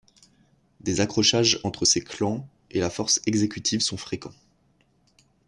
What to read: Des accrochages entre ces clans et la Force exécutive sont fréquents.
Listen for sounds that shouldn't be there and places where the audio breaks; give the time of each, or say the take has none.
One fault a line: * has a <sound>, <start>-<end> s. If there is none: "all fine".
all fine